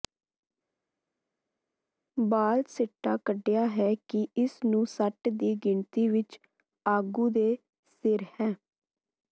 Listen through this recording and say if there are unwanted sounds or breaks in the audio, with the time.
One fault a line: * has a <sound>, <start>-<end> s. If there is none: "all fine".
all fine